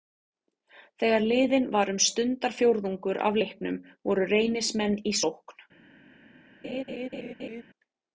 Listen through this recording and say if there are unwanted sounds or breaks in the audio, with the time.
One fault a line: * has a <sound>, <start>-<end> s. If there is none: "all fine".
* has a laugh, 6.6-7.6 s